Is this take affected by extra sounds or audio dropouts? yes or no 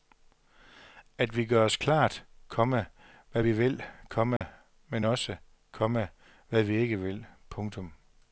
yes